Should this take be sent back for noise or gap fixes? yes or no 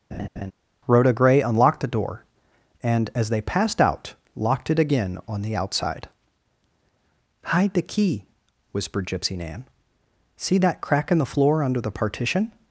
yes